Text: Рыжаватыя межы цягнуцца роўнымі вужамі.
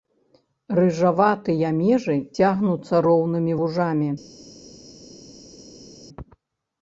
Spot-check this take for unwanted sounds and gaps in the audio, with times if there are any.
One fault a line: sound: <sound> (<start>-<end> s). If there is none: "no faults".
no faults